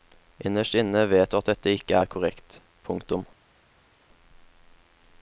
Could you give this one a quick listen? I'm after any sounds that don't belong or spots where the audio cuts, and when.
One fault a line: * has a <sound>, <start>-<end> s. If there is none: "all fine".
all fine